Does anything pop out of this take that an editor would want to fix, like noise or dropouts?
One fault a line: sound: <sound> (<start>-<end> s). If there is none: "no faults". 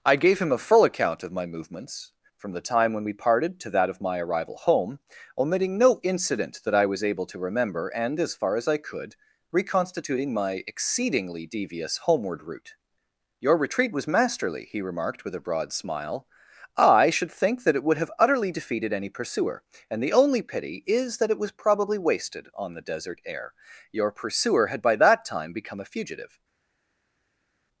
no faults